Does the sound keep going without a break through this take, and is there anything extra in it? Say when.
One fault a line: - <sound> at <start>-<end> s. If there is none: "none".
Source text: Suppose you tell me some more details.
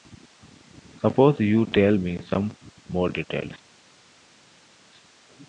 none